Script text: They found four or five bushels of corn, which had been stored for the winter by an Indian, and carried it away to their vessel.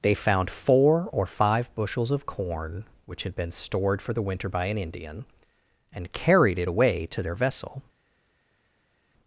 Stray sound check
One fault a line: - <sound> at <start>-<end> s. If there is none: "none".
none